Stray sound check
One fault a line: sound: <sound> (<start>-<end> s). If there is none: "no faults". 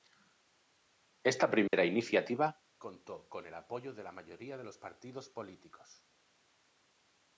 sound: dropout (1.7-1.7 s)